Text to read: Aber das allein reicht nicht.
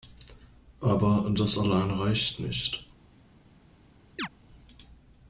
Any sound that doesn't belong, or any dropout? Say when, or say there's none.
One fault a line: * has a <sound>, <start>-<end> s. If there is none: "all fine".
* has a chirp, 4.2-4.3 s